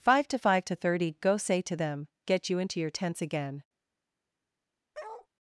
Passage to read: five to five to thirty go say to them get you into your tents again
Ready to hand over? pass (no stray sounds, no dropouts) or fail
fail